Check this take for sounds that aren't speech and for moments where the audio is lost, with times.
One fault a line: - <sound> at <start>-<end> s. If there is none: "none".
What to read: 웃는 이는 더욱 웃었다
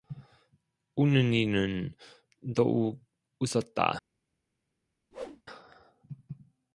- whoosh at 5.1-5.4 s